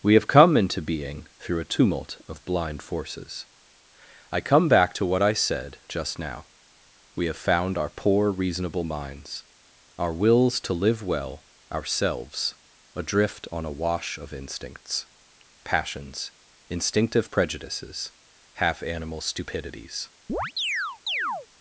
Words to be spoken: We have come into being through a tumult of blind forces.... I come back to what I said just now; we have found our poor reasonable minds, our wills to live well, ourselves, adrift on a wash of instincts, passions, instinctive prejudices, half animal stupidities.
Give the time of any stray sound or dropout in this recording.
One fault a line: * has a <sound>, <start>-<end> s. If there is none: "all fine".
* has a chirp, 20.3-21.5 s